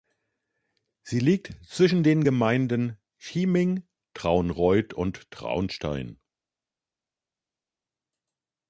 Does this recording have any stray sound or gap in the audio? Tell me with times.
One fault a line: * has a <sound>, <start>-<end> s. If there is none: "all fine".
all fine